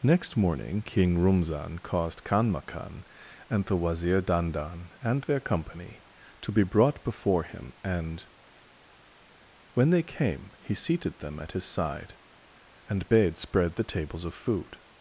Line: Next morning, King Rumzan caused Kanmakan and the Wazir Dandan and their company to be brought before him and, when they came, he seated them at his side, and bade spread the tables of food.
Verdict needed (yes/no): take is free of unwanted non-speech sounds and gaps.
yes